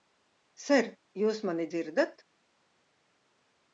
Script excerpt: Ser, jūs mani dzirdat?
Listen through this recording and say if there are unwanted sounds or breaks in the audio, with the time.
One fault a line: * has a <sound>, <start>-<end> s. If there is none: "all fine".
all fine